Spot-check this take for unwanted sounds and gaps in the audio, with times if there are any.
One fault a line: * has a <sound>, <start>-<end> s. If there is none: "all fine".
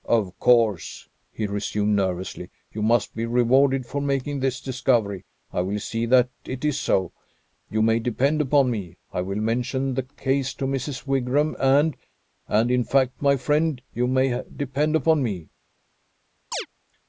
* has a chirp, 16.5-16.7 s